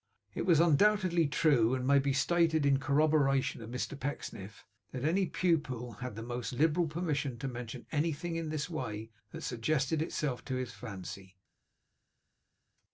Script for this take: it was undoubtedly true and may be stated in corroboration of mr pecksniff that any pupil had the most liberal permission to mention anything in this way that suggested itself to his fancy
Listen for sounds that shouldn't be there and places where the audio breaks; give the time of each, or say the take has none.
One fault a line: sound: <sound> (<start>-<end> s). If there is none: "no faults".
no faults